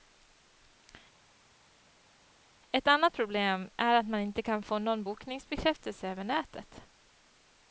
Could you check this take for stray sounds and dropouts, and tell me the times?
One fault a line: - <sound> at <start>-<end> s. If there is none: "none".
none